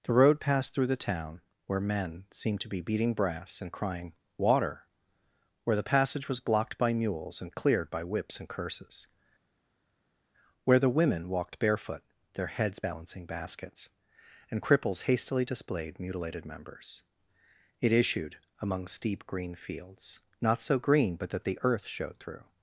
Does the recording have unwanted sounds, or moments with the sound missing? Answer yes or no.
no